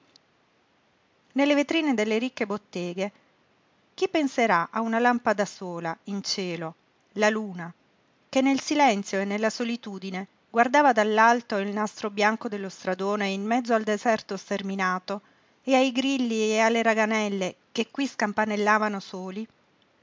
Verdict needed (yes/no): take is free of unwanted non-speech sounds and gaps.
yes